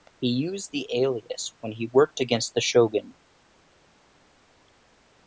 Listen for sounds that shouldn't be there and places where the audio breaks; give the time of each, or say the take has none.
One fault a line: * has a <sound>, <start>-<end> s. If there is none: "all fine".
all fine